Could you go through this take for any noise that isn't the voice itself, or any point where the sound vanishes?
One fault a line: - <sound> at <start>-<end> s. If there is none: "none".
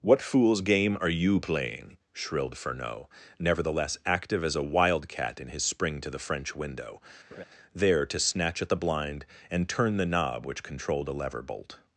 - laugh at 7.3-7.4 s